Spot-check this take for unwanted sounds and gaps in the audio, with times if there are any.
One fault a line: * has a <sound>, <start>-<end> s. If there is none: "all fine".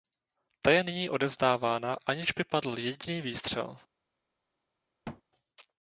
* has a thud, 5.0-5.2 s